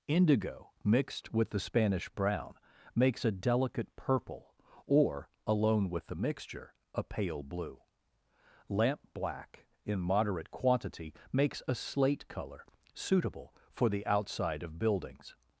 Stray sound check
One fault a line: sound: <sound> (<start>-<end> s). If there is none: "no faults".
no faults